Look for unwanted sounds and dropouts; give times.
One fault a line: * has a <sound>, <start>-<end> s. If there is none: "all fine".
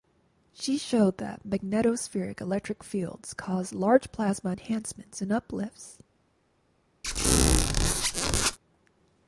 * has a squeak, 7.0-8.6 s